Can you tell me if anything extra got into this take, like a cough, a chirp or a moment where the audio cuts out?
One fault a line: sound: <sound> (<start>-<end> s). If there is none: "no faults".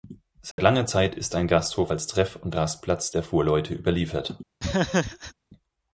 sound: dropout (0.5-0.6 s)
sound: laugh (4.6-5.3 s)